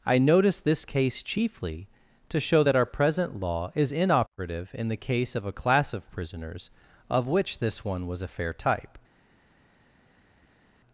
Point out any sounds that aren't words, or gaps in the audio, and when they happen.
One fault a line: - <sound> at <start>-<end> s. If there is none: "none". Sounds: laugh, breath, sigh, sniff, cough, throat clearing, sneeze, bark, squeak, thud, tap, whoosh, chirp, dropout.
none